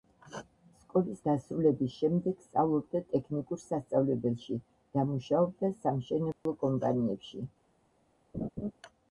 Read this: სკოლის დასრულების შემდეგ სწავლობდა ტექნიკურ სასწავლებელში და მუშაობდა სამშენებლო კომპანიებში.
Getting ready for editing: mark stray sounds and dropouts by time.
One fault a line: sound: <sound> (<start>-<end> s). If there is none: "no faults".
sound: dropout (6.3-6.5 s)
sound: laugh (8.3-8.7 s)